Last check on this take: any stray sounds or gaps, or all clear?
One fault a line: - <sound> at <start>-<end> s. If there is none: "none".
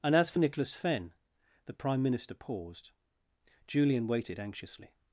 none